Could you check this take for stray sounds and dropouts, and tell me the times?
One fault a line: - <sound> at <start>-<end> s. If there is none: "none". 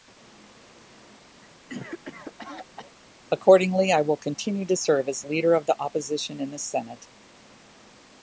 - cough at 1.4-2.9 s